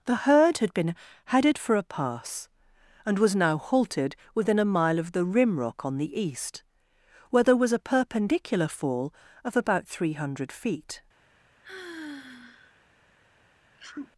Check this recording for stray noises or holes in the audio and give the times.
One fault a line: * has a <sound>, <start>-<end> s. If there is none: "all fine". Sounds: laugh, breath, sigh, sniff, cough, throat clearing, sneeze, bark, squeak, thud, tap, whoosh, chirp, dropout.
* has a sigh, 11.6-12.8 s
* has a sneeze, 13.7-14.1 s